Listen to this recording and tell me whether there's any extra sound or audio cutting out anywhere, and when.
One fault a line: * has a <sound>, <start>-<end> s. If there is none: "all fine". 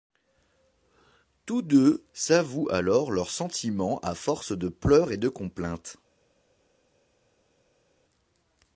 all fine